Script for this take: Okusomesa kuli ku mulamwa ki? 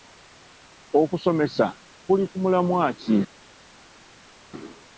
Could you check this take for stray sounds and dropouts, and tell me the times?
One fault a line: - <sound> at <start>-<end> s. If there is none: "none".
none